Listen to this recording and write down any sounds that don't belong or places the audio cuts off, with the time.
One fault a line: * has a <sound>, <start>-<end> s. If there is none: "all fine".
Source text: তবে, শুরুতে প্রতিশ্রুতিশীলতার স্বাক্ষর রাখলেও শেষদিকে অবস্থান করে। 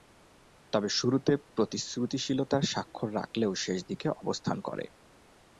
all fine